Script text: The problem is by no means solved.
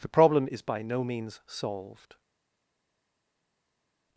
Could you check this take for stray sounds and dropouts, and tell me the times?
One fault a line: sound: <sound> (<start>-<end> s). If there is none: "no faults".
no faults